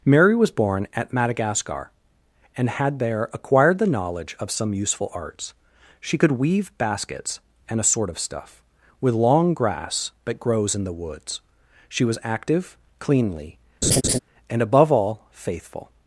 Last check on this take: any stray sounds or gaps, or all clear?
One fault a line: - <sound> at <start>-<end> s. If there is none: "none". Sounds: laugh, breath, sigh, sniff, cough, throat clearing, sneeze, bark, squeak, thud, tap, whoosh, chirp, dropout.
- laugh at 13.8-14.2 s